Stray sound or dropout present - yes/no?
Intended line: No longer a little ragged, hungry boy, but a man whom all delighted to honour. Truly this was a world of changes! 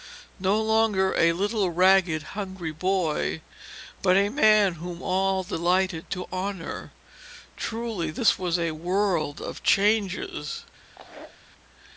yes